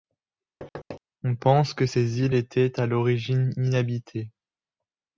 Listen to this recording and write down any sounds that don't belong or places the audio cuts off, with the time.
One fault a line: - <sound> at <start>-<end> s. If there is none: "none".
- thud at 0.6-1.0 s